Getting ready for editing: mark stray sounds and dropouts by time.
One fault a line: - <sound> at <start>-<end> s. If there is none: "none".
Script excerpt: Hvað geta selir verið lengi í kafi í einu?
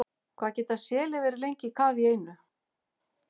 none